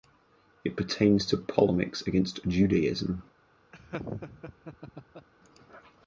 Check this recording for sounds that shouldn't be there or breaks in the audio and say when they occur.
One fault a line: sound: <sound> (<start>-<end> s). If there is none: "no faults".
sound: laugh (3.7-5.3 s)